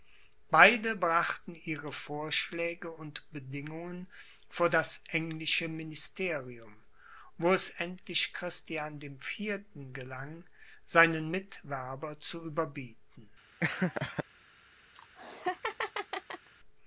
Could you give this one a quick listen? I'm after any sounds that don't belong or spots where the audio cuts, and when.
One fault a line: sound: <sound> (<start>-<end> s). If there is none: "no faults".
sound: laugh (13.6-14.2 s)
sound: laugh (14.9-16.5 s)